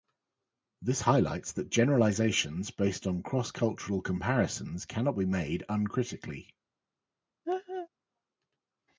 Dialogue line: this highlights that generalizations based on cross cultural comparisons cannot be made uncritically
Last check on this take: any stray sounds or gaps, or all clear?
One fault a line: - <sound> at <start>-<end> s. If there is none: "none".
- laugh at 7.4-7.9 s